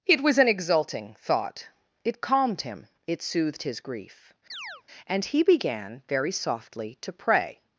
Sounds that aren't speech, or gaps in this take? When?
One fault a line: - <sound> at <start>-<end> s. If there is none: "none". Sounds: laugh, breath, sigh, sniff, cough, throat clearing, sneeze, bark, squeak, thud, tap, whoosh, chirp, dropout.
- chirp at 4.5-4.8 s